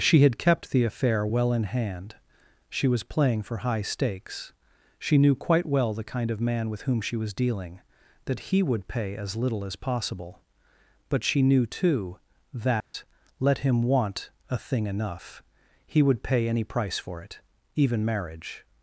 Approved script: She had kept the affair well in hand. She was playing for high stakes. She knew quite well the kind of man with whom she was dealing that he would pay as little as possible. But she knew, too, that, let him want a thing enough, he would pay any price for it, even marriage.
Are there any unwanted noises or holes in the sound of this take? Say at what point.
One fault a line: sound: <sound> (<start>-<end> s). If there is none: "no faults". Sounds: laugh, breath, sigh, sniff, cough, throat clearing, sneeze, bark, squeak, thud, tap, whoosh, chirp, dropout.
sound: dropout (12.8-12.9 s)